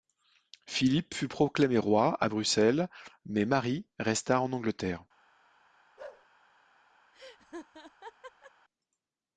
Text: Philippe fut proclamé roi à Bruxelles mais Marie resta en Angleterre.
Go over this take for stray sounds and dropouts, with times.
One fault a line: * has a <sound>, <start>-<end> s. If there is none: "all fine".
* has a bark, 6.0-6.3 s
* has a laugh, 7.1-8.5 s